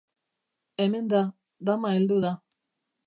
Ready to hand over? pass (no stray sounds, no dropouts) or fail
pass